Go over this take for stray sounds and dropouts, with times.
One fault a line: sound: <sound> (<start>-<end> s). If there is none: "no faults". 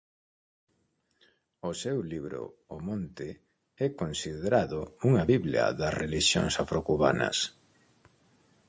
no faults